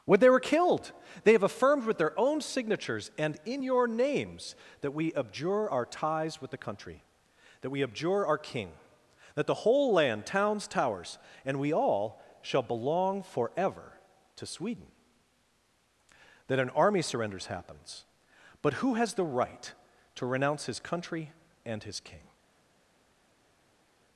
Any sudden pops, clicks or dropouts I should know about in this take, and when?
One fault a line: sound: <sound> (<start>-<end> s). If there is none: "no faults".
no faults